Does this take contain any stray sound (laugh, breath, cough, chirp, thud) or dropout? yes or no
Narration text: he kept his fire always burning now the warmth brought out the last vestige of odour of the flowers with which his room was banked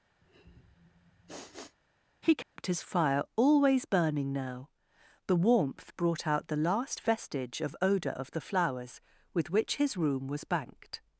yes